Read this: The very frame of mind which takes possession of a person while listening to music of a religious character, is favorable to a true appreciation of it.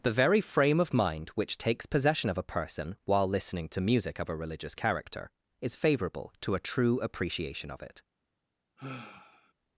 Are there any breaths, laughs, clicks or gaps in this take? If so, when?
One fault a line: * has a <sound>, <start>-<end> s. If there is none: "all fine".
* has a sigh, 8.8-9.5 s